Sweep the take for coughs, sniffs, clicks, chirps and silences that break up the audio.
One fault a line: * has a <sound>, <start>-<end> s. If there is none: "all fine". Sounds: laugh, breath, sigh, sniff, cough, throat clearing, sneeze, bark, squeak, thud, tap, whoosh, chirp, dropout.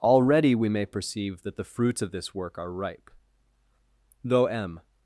all fine